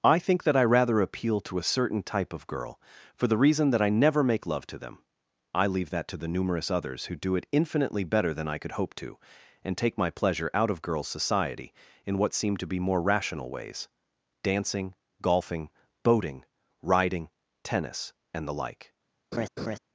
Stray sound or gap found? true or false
true